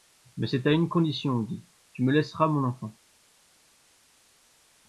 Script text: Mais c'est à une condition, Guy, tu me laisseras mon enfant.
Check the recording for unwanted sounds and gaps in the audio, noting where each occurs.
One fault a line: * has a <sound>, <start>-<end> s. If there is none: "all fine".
all fine